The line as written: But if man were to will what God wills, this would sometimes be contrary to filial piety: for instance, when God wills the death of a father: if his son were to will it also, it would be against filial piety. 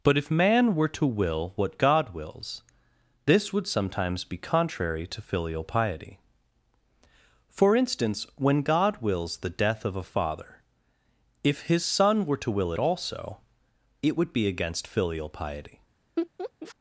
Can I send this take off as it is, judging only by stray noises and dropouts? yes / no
no